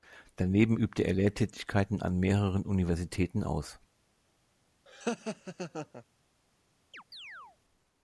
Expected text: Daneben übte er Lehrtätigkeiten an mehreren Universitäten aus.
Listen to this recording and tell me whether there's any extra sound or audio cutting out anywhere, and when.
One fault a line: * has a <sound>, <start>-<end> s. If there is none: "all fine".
* has a laugh, 4.9-6.0 s
* has a chirp, 6.9-7.6 s